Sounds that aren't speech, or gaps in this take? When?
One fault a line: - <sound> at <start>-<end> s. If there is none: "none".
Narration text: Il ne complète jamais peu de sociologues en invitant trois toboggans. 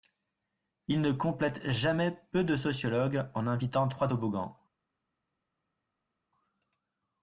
none